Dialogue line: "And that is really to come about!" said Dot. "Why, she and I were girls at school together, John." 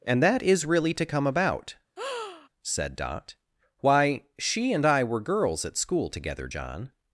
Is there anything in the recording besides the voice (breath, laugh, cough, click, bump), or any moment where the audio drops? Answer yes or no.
yes